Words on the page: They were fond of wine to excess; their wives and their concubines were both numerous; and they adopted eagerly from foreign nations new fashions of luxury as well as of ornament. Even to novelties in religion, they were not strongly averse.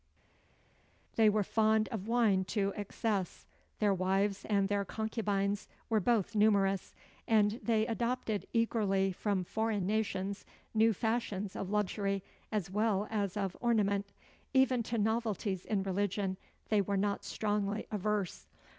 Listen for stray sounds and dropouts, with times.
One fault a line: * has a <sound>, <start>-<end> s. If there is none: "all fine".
all fine